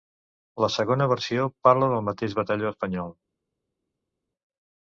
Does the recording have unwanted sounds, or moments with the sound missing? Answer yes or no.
no